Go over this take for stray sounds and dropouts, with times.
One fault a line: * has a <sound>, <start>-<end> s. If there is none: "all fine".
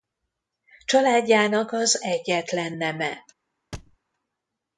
* has a thud, 3.7-4.0 s